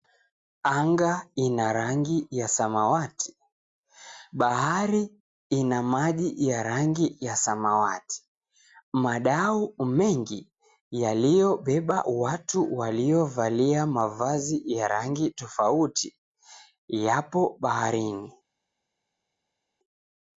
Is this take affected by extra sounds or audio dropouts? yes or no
no